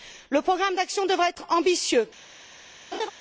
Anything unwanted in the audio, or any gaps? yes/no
yes